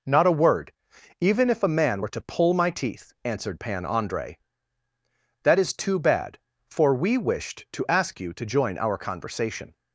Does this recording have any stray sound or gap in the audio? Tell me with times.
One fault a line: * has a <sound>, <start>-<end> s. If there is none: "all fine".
all fine